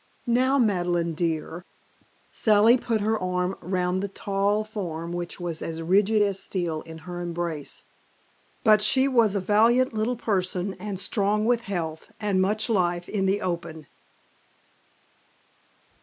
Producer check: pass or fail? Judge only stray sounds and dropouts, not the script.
pass